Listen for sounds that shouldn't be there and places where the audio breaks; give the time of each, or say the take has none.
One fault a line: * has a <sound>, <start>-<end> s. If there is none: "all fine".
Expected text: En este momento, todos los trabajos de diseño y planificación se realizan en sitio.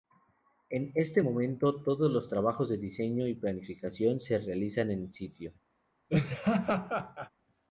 * has a laugh, 6.1-7.3 s